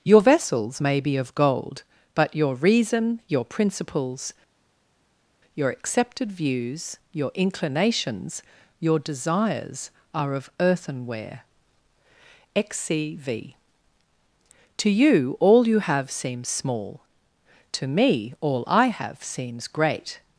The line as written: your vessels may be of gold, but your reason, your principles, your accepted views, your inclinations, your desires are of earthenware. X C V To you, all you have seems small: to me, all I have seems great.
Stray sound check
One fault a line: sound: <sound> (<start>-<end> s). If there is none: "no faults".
no faults